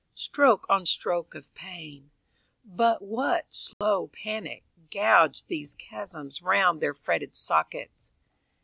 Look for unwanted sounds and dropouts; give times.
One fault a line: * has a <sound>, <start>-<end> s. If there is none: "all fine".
* has a dropout, 3.7-3.8 s